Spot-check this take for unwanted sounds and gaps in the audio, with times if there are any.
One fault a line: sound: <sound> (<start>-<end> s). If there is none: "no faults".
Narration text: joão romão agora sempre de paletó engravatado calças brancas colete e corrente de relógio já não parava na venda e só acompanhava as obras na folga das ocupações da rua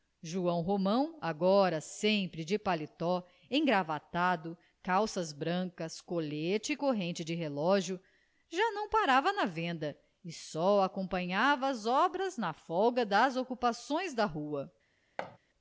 sound: thud (15.2-15.4 s)